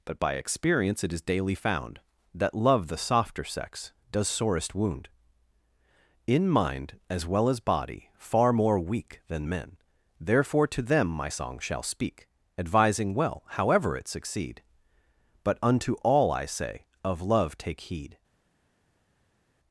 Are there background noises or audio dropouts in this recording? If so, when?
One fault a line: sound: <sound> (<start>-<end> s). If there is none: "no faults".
no faults